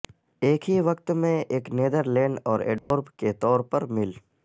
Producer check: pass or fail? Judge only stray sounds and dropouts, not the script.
fail